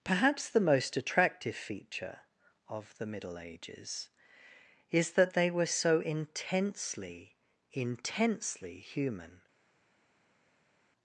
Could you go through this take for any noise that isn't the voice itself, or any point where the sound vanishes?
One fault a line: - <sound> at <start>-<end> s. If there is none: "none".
none